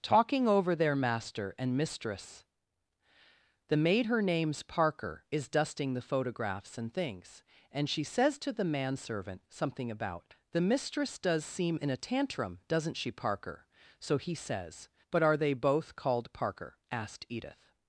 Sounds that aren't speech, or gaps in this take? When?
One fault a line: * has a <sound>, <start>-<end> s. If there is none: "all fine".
all fine